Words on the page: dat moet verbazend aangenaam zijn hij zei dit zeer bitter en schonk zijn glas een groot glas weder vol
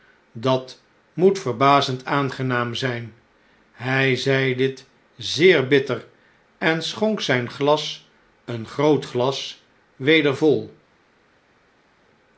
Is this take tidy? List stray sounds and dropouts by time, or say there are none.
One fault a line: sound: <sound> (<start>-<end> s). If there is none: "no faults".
no faults